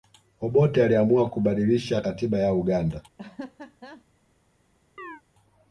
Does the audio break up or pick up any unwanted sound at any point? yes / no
yes